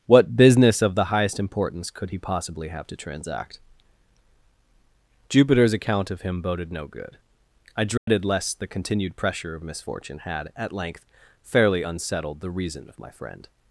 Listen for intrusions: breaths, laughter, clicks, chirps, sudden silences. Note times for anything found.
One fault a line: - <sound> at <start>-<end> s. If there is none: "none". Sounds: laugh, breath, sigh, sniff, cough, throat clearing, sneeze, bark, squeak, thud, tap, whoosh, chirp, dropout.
- dropout at 8.0-8.1 s